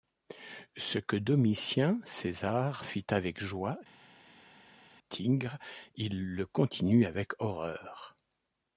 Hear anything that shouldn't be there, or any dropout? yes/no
no